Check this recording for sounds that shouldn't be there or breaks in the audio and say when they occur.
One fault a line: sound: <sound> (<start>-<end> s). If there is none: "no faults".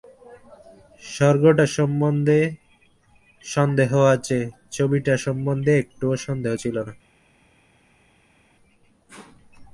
no faults